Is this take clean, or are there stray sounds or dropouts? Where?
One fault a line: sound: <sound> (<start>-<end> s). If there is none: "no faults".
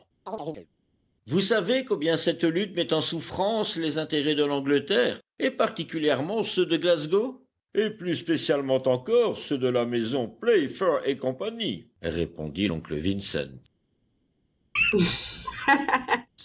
sound: chirp (0.3-0.7 s)
sound: laugh (14.8-16.3 s)